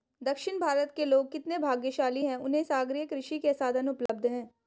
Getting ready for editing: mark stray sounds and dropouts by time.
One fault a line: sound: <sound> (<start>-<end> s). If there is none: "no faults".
sound: dropout (4.1-4.1 s)